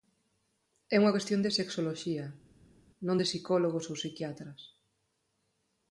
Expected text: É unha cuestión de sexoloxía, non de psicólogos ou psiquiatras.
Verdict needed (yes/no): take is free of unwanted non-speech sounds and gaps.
yes